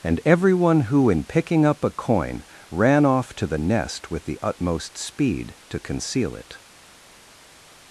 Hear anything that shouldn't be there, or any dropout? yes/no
no